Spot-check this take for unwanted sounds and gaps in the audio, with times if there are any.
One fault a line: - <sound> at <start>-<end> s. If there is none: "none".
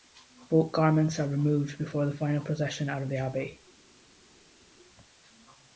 none